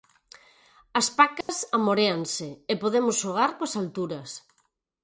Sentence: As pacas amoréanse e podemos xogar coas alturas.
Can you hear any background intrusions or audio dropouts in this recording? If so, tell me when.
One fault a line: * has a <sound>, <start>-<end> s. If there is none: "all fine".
* has a dropout, 1.4-1.5 s